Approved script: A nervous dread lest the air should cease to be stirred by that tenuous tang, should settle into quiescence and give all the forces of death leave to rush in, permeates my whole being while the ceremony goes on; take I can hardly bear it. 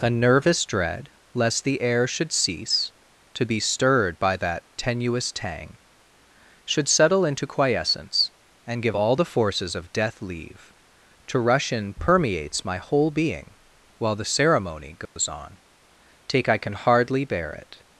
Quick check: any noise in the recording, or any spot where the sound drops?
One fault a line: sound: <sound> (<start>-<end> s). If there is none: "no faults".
sound: dropout (15.1-15.2 s)